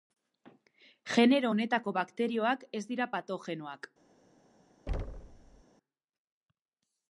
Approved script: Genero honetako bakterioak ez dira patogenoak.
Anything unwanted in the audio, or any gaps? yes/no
yes